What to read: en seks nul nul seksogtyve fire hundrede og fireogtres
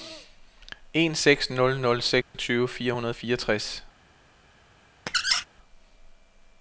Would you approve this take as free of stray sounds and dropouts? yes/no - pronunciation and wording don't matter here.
no